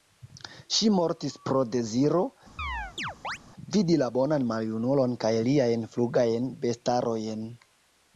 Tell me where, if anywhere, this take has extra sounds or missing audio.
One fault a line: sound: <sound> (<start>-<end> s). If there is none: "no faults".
sound: chirp (2.6-3.4 s)